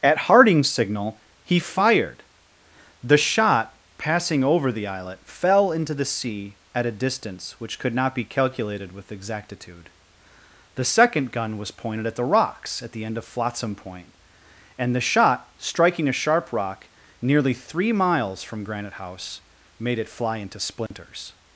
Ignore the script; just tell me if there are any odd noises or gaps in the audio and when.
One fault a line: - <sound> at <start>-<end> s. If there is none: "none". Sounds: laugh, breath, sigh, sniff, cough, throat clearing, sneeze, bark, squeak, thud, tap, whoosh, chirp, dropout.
- dropout at 20.9-20.9 s